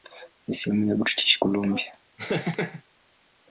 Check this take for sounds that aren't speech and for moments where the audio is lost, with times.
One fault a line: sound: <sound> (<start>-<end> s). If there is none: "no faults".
sound: laugh (2.2-2.8 s)